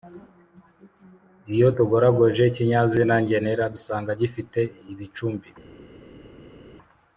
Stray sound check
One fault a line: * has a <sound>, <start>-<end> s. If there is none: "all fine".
all fine